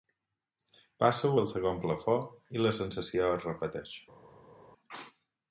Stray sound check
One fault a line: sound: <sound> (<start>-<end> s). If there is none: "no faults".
no faults